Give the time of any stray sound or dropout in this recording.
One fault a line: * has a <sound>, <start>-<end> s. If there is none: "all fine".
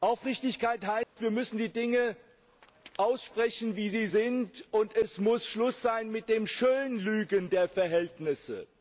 * has a dropout, 1.0-1.2 s